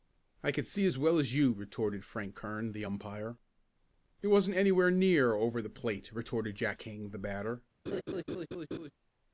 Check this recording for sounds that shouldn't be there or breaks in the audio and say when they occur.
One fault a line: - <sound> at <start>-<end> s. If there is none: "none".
- laugh at 7.9-8.9 s